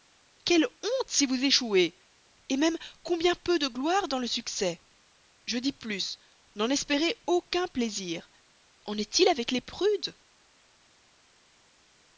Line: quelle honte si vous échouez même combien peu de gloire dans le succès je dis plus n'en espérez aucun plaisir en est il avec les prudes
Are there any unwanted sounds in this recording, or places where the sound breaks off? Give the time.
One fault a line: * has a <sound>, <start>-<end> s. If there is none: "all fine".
all fine